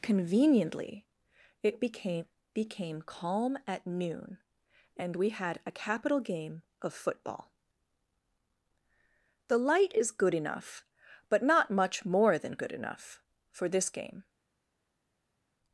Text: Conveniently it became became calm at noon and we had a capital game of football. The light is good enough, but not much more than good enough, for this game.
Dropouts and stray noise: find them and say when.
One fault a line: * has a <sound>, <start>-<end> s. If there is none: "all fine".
all fine